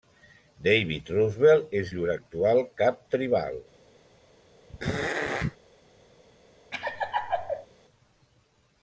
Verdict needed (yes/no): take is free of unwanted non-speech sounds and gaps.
no